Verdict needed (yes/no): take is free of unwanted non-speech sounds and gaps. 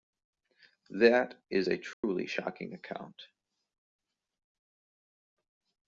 no